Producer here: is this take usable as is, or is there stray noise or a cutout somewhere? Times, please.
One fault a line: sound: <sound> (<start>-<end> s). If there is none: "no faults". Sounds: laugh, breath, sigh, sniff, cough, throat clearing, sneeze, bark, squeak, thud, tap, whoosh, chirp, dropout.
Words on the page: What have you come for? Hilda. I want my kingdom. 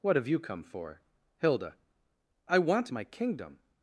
no faults